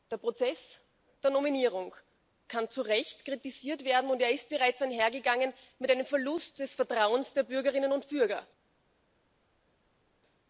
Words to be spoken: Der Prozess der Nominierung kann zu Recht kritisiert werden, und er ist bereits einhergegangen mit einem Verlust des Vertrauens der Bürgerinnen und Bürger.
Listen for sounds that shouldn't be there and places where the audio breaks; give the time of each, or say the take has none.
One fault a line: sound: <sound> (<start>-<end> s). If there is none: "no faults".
no faults